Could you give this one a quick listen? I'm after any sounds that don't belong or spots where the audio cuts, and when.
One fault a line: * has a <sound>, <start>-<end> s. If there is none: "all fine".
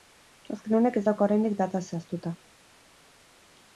all fine